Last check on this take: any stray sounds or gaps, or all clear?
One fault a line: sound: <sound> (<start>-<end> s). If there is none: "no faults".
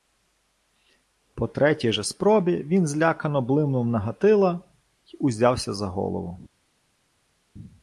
no faults